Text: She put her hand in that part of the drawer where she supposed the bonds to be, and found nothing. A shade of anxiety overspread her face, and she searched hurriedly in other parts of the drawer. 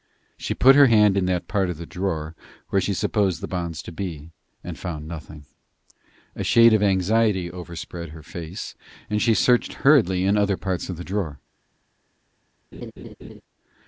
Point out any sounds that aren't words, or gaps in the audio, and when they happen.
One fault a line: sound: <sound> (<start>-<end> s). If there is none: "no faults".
sound: laugh (12.7-13.4 s)